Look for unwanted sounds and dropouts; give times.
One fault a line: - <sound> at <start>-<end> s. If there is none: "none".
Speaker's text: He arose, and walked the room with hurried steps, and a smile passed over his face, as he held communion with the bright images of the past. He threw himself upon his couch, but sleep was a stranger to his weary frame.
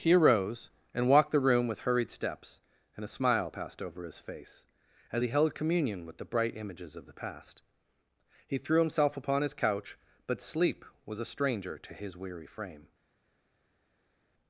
none